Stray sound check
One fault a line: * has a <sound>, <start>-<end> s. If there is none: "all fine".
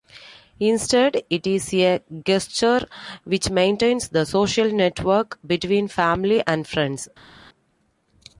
all fine